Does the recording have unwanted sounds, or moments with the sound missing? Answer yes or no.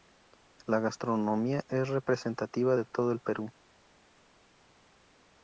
no